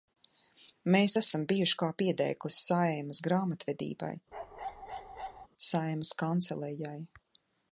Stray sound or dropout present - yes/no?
yes